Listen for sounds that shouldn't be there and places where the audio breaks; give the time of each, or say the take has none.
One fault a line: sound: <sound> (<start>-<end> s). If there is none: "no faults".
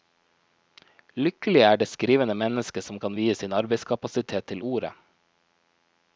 no faults